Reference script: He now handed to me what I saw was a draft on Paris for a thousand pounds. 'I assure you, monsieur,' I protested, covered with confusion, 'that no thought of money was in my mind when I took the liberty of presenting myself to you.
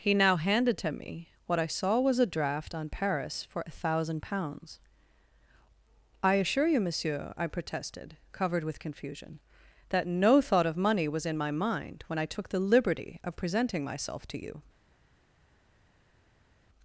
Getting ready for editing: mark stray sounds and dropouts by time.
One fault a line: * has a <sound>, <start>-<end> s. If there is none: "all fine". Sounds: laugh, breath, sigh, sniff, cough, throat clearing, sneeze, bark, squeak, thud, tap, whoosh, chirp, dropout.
all fine